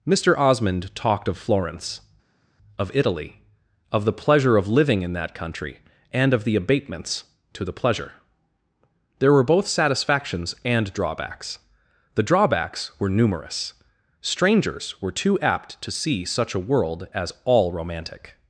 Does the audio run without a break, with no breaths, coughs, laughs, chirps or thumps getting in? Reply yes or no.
yes